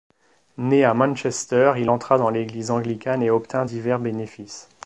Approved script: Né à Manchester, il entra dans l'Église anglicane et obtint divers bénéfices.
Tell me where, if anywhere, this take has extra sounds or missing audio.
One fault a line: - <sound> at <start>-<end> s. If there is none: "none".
none